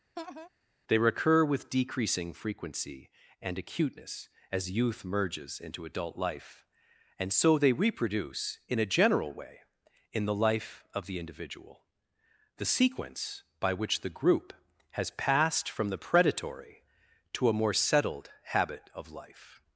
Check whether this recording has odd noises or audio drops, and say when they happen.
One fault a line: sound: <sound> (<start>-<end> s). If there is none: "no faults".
sound: laugh (0.2-0.5 s)